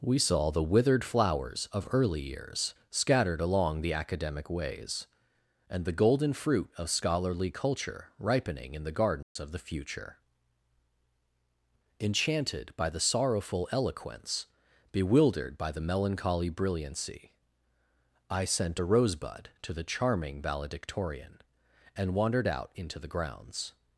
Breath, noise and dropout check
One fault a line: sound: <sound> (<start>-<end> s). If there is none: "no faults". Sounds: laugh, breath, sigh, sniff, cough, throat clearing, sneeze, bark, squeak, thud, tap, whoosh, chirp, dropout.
sound: dropout (9.2-9.4 s)